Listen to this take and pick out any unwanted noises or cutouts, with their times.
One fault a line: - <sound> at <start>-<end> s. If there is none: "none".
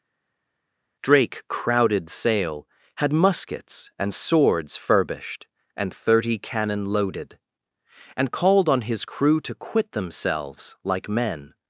none